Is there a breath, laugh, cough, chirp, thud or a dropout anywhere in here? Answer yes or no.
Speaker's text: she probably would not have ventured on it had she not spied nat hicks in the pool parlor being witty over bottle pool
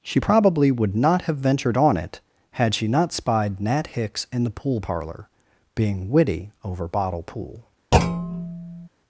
yes